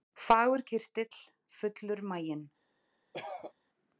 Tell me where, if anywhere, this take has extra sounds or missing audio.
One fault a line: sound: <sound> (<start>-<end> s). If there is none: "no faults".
sound: cough (3.1-3.5 s)